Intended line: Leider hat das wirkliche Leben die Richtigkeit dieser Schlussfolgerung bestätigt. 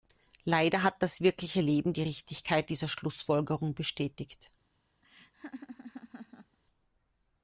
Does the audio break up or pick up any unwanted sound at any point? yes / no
yes